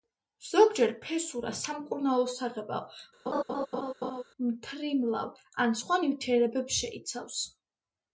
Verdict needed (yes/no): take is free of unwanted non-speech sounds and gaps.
no